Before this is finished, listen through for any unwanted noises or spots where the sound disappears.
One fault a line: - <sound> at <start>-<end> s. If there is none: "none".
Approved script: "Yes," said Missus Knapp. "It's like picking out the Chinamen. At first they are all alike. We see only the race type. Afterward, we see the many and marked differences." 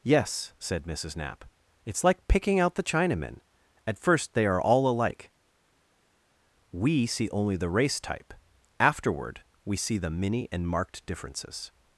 none